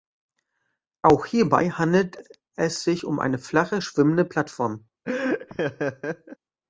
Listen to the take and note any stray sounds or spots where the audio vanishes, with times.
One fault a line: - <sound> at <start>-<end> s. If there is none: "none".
- laugh at 5.0-6.4 s